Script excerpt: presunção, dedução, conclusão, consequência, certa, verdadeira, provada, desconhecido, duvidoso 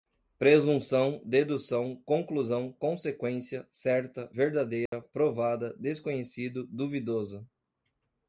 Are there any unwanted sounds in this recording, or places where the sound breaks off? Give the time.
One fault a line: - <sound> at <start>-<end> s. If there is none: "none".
- dropout at 4.9-4.9 s